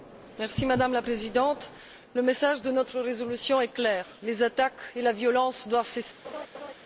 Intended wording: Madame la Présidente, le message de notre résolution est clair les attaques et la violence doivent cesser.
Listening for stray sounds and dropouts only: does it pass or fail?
fail